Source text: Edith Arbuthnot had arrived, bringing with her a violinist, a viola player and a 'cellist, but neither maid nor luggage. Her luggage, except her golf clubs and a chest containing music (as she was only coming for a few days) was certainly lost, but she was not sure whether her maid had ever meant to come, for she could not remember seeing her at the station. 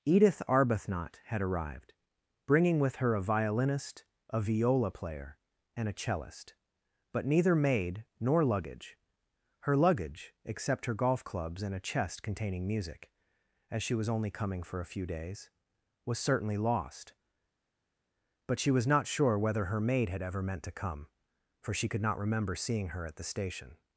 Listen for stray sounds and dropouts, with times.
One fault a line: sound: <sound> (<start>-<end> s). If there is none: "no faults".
no faults